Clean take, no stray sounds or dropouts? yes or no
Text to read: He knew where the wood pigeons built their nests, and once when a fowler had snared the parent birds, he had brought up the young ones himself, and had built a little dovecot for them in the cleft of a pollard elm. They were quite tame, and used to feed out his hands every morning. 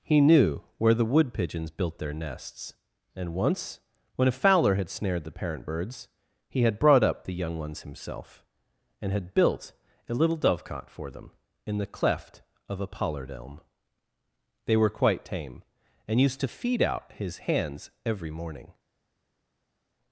yes